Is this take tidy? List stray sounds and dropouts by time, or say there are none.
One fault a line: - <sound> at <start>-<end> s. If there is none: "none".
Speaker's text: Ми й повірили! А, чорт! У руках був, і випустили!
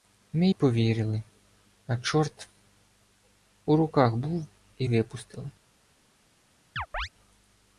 - chirp at 6.8-7.1 s